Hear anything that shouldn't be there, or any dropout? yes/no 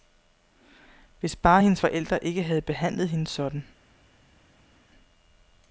no